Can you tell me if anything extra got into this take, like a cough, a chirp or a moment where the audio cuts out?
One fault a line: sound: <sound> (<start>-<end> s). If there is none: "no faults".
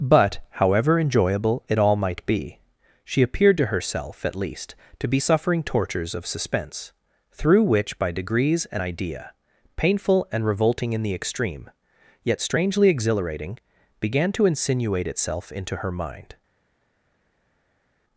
no faults